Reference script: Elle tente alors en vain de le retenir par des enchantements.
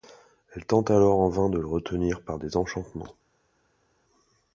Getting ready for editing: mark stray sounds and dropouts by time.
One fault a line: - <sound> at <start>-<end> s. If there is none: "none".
none